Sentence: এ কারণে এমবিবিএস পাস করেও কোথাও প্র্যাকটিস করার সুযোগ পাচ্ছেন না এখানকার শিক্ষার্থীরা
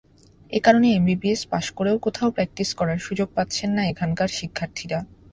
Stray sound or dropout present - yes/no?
no